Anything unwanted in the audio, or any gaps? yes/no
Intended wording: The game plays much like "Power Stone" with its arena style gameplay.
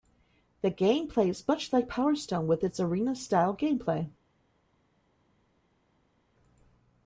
no